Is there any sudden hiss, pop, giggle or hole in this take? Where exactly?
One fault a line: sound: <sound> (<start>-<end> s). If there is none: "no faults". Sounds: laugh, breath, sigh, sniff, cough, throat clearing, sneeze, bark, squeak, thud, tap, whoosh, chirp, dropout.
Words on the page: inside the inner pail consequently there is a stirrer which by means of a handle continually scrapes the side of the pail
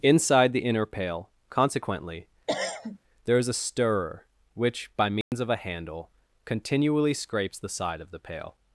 sound: cough (2.5-3.0 s)
sound: dropout (5.2-5.3 s)